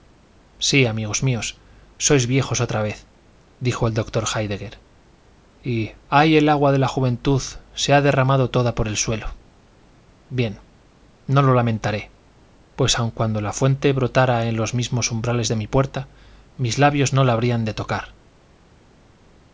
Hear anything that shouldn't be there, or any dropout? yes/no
no